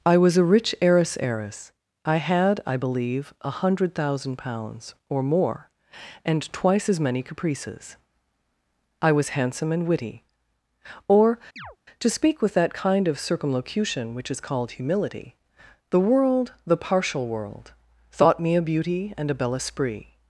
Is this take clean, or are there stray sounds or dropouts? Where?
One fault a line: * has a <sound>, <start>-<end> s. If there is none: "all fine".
* has a chirp, 11.6-11.8 s